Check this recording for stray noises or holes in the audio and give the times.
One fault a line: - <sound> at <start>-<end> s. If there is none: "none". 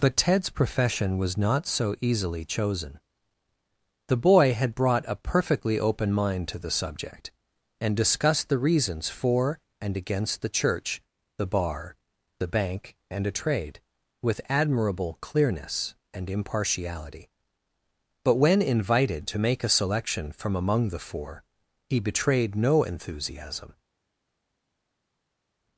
none